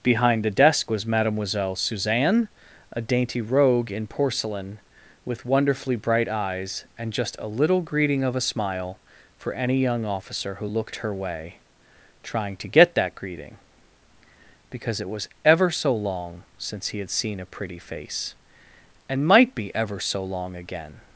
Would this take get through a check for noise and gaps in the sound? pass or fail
pass